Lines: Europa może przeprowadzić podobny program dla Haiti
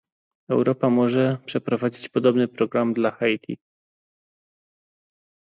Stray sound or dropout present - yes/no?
no